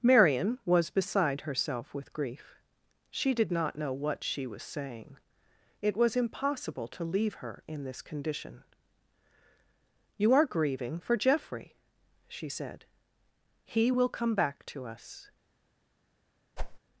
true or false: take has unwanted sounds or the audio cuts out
true